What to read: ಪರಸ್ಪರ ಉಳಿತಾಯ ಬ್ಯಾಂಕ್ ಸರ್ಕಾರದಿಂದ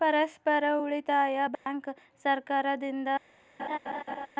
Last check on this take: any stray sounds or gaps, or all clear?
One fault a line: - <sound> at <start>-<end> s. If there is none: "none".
- dropout at 1.6-1.7 s
- laugh at 3.6-4.3 s